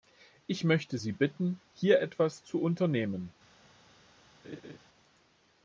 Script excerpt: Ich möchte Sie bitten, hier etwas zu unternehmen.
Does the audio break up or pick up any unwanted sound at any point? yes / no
yes